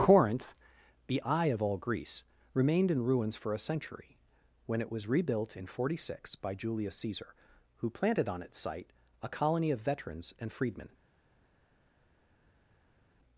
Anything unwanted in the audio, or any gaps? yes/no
no